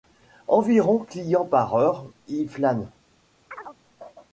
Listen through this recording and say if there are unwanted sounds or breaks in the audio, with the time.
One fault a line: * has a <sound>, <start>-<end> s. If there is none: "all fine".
* has a chirp, 3.5-3.8 s